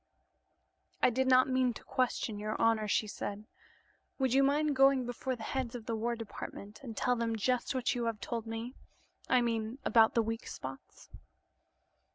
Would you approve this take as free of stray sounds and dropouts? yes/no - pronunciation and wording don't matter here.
yes